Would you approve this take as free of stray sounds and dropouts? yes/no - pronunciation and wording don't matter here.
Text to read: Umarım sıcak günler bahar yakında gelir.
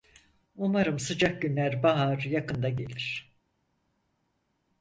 yes